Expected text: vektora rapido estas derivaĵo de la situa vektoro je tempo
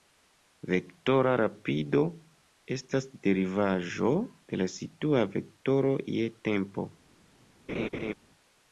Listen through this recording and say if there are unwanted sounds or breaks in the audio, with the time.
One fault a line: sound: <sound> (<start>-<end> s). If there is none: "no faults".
sound: laugh (7.7-8.1 s)